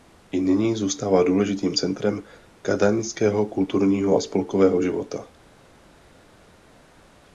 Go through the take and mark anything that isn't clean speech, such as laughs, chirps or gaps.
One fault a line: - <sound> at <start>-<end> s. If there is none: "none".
none